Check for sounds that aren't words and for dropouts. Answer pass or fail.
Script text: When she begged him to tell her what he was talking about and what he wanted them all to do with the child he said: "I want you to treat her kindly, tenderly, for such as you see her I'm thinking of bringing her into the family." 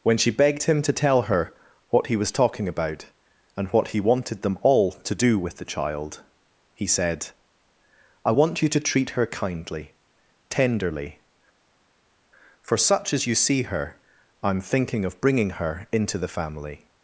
pass